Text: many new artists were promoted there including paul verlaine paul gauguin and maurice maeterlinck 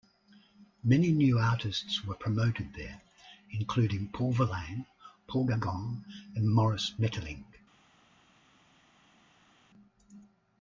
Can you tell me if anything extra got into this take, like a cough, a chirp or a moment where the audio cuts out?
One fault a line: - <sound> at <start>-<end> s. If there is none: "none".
none